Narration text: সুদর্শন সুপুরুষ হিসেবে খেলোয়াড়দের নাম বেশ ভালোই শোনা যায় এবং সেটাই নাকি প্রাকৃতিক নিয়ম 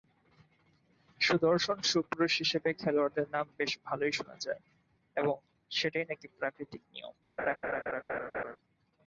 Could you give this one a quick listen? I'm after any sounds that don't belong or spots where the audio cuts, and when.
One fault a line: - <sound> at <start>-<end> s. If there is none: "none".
- laugh at 7.4-8.6 s